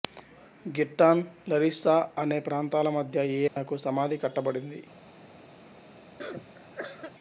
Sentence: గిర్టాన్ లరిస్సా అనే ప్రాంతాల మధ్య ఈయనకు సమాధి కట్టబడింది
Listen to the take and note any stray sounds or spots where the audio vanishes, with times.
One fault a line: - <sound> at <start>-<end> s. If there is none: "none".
- dropout at 3.5-3.6 s
- cough at 6.2-7.1 s